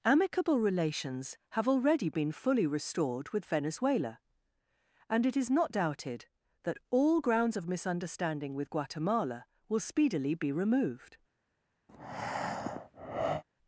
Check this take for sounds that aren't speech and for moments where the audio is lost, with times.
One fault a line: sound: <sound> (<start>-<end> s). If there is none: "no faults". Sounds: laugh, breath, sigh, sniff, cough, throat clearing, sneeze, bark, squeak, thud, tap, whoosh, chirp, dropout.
sound: breath (11.9-13.4 s)